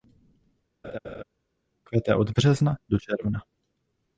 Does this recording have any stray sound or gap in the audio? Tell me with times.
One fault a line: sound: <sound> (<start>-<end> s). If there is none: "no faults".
sound: laugh (0.8-1.2 s)